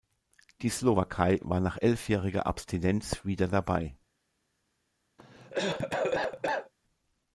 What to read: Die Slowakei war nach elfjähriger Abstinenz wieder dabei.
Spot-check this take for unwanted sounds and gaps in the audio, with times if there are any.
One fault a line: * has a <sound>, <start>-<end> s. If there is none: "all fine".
* has a cough, 5.2-6.7 s